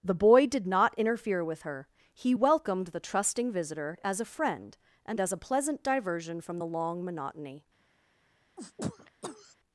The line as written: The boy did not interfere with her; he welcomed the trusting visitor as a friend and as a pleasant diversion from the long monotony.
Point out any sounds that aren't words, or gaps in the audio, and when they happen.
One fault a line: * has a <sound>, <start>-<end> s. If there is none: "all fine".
* has a sneeze, 8.6-9.5 s